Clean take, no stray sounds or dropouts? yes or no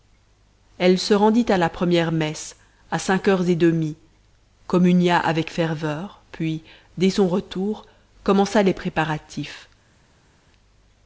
yes